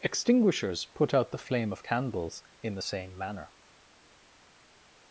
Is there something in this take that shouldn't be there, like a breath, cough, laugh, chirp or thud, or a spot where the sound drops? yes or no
no